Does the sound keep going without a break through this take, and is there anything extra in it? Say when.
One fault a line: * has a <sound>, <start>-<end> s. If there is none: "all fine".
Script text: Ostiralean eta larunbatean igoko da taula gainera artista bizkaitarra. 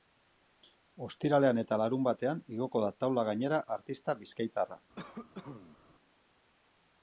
* has a cough, 5.0-5.8 s